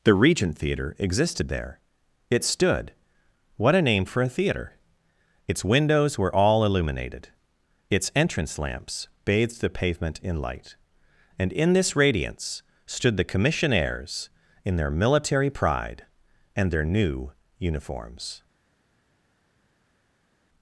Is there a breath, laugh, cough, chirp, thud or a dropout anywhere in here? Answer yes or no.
no